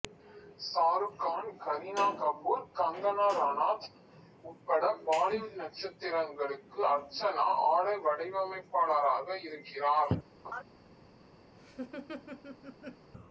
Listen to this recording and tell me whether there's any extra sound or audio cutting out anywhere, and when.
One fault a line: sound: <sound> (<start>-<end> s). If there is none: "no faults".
sound: laugh (10.4-10.6 s)
sound: laugh (11.5-13.1 s)